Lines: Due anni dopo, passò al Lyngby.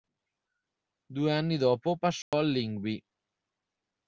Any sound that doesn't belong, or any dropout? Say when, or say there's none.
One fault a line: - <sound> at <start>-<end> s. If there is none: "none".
- dropout at 2.2-2.3 s